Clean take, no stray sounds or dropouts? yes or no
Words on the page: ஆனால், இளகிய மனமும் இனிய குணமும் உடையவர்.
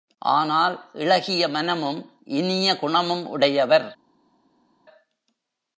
yes